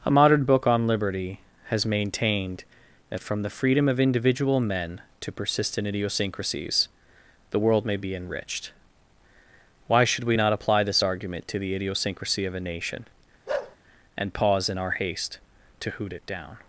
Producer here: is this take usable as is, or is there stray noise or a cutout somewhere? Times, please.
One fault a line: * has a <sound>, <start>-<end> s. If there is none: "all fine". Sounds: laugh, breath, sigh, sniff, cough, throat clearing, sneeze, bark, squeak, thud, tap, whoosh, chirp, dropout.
* has a bark, 13.5-13.8 s